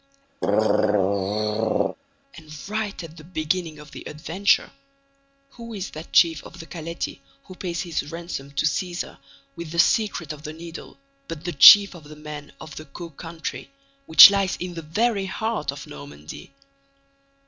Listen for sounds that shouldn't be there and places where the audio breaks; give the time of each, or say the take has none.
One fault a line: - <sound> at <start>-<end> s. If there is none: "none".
- throat clearing at 0.4-2.0 s